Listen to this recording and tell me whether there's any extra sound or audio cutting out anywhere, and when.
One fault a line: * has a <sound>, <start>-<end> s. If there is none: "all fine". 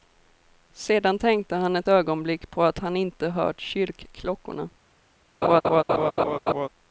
* has a laugh, 5.4-6.7 s